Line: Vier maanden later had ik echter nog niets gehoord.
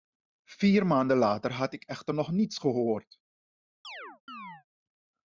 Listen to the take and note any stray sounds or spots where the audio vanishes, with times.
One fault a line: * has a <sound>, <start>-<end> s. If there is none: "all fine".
* has a chirp, 3.8-4.6 s